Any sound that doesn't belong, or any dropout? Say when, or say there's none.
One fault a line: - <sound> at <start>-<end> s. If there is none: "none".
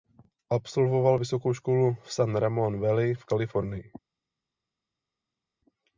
none